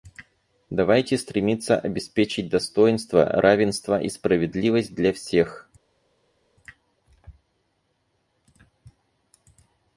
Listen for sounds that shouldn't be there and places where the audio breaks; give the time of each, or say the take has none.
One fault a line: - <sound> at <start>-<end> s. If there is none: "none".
none